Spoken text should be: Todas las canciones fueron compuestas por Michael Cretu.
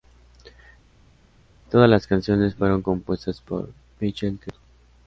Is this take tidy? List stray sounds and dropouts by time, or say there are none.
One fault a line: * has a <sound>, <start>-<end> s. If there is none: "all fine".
all fine